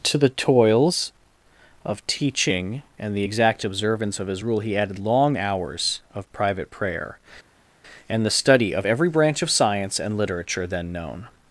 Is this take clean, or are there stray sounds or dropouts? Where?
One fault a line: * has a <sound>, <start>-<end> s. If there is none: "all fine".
all fine